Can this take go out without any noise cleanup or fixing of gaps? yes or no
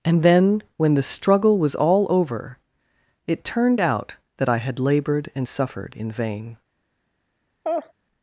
no